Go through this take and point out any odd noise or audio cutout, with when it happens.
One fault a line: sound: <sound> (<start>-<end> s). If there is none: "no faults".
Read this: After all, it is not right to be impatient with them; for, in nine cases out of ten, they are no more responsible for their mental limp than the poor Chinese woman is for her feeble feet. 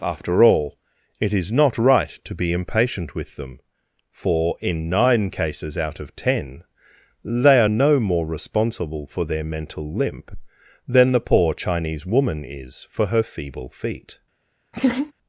sound: laugh (14.7-15.1 s)